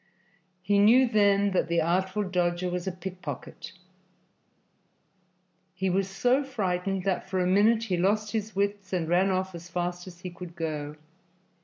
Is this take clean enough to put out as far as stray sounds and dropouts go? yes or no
yes